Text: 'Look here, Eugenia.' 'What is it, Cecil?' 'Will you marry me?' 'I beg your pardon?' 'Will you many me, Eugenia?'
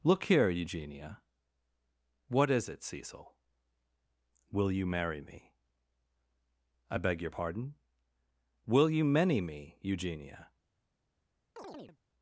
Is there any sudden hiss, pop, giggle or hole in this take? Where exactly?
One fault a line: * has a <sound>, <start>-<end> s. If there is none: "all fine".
* has a chirp, 11.6-12.0 s